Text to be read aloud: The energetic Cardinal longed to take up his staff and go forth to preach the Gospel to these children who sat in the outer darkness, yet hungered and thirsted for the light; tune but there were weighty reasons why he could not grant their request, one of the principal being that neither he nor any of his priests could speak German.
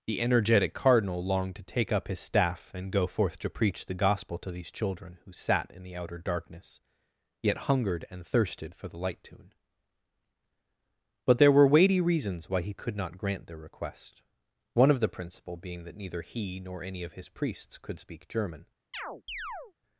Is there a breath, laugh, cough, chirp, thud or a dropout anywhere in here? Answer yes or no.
yes